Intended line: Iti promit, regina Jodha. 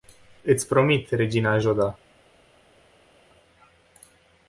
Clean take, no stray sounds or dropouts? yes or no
yes